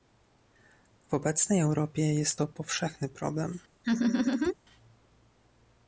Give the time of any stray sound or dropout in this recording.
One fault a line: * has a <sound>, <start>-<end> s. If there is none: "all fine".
* has a laugh, 3.8-4.5 s